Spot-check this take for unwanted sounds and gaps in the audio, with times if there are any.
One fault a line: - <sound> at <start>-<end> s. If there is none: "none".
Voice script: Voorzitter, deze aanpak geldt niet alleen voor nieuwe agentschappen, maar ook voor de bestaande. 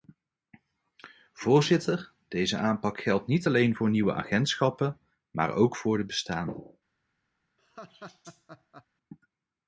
- laugh at 7.6-8.9 s